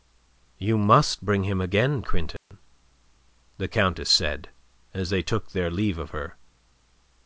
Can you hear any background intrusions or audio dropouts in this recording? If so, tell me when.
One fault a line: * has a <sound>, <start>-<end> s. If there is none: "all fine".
* has a dropout, 2.4-2.5 s